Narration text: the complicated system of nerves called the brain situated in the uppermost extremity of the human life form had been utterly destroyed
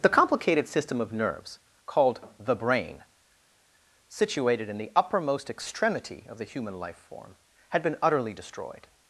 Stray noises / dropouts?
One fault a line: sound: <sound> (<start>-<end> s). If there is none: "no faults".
no faults